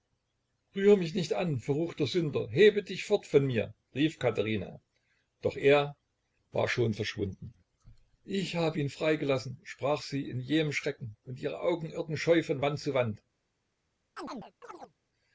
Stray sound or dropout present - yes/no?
yes